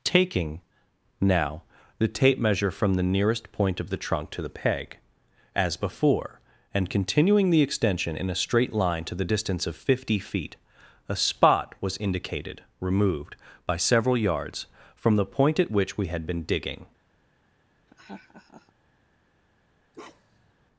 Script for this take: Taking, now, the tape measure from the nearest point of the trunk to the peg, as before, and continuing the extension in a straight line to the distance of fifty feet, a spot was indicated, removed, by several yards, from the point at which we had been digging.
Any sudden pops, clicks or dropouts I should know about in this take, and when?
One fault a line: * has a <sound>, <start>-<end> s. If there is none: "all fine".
* has a laugh, 17.9-18.7 s
* has a bark, 19.9-20.5 s